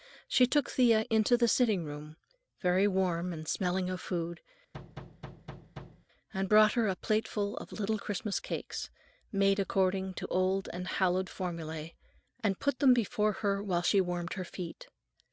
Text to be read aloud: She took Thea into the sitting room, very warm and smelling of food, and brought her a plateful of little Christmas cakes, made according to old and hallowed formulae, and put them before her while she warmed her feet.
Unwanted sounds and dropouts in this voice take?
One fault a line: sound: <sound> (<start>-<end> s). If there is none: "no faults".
sound: thud (4.7-6.1 s)